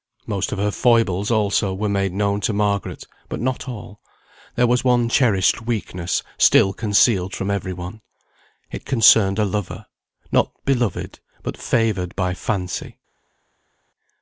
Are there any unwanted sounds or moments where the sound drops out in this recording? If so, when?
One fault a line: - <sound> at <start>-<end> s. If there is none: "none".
none